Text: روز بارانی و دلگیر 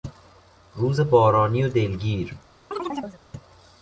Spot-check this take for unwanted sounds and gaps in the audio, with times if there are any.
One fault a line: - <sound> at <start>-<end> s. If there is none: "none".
- chirp at 2.7-3.2 s